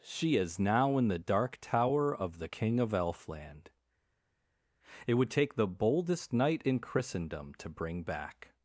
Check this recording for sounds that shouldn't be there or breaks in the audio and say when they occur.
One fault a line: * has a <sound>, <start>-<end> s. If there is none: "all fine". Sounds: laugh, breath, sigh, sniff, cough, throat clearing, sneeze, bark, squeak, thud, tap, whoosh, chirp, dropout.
all fine